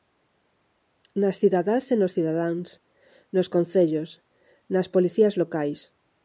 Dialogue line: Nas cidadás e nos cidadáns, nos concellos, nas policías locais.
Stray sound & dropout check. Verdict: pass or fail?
pass